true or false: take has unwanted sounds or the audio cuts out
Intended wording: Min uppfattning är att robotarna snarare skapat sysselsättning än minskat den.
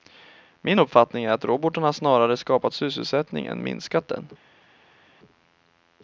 false